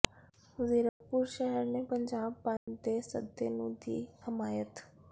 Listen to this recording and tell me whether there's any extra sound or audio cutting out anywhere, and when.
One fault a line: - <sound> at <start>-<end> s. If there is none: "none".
- dropout at 0.9-1.0 s
- dropout at 2.6-2.7 s